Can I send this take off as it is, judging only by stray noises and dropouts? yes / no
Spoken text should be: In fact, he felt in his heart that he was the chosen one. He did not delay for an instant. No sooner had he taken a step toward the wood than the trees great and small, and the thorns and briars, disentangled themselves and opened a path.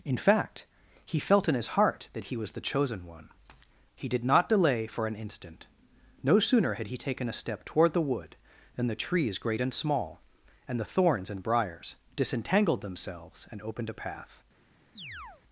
no